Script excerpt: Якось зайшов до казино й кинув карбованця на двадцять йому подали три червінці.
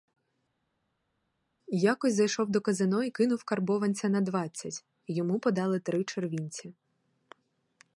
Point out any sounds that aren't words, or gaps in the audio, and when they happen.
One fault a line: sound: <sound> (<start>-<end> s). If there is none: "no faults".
no faults